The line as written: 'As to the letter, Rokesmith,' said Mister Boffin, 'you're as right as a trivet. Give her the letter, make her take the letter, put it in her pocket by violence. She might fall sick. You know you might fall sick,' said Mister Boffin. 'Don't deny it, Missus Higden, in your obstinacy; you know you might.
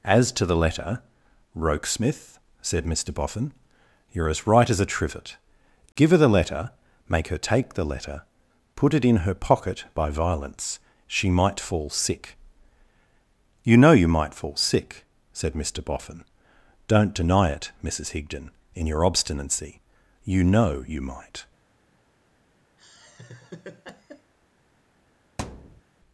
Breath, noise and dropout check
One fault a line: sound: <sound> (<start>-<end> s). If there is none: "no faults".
sound: laugh (22.8-24.3 s)
sound: thud (25.4-25.8 s)